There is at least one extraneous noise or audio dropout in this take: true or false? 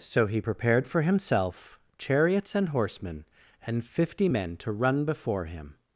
false